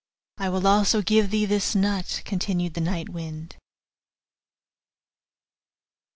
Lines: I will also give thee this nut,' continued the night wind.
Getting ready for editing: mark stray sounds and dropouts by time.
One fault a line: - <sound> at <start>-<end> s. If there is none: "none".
none